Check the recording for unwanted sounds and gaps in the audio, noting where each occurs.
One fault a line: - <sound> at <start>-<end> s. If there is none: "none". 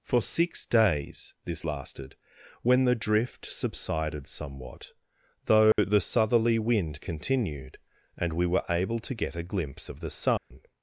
- dropout at 5.7-5.8 s
- dropout at 10.4-10.5 s